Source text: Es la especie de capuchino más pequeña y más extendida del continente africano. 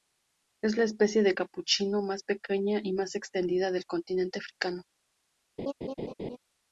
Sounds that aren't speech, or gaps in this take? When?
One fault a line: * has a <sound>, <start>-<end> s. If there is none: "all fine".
* has a laugh, 5.6-6.4 s